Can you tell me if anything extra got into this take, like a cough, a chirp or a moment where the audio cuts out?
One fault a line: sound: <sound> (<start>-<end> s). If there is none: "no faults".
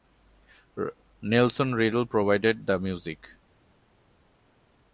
no faults